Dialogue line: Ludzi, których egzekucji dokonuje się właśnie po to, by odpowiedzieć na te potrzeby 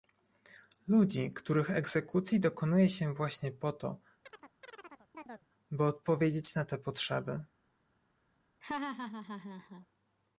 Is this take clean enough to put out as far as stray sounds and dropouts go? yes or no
no